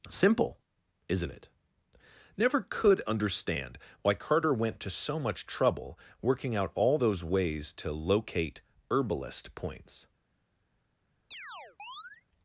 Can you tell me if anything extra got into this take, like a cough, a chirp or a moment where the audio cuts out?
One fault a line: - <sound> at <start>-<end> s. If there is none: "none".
- chirp at 11.3-12.2 s